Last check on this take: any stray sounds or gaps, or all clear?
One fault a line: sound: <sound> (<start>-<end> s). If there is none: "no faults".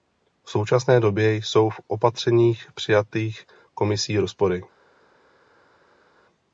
no faults